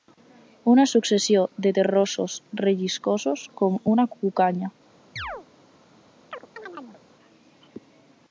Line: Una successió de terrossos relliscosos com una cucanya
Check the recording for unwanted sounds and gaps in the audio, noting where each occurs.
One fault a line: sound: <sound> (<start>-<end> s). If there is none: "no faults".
sound: chirp (5.2-5.5 s)
sound: chirp (6.3-7.0 s)